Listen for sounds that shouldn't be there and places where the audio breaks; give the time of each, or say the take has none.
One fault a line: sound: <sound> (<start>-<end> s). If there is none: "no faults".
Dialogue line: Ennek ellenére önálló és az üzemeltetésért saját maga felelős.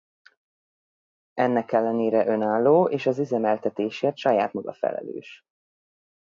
no faults